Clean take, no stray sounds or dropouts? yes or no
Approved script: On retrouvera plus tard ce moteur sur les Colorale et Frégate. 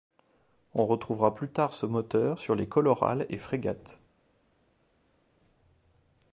yes